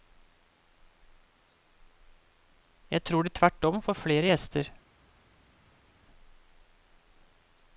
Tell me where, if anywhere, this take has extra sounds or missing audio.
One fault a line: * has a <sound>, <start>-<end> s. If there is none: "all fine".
all fine